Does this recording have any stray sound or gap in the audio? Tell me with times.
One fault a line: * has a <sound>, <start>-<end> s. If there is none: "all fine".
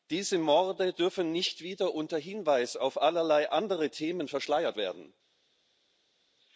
all fine